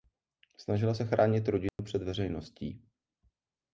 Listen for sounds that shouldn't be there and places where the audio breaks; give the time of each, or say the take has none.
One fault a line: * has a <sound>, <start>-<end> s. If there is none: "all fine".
* has a dropout, 1.7-1.8 s